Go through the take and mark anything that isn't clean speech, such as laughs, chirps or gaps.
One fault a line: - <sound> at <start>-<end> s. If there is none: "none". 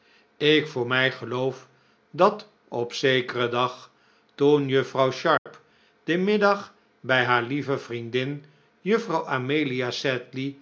- dropout at 5.4-5.5 s